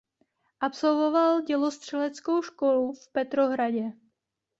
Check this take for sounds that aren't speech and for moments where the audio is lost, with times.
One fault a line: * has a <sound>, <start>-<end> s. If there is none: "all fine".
all fine